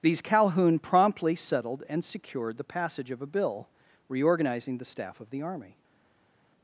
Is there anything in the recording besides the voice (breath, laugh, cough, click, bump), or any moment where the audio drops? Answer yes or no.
no